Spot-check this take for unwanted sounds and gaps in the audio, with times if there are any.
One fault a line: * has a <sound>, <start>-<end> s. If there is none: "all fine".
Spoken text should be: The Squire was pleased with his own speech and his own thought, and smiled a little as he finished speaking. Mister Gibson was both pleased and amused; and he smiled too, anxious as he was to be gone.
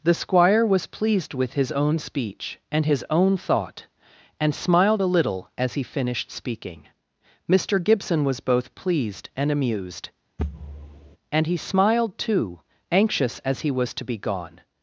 * has a thud, 10.4-11.2 s